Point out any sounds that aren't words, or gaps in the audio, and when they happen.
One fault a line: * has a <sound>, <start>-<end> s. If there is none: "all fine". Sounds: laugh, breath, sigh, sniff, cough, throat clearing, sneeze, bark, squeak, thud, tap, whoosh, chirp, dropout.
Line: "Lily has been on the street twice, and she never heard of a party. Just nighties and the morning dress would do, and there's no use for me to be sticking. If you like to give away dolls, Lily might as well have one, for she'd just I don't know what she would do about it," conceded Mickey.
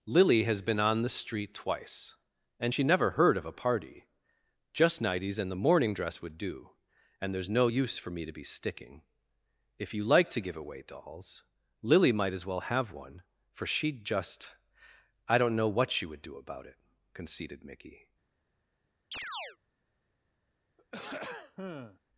* has a chirp, 19.1-19.6 s
* has a throat clearing, 20.8-22.0 s